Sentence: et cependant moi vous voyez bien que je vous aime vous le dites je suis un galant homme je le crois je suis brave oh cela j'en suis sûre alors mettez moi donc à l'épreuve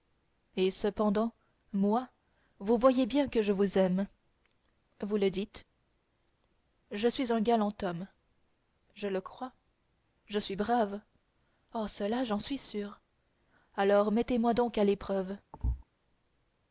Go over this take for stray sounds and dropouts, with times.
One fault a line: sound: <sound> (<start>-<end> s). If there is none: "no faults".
sound: thud (15.5-15.8 s)